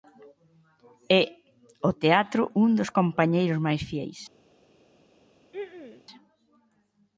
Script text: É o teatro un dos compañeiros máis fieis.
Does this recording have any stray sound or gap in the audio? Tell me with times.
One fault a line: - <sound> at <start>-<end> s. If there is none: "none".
- throat clearing at 5.5-6.0 s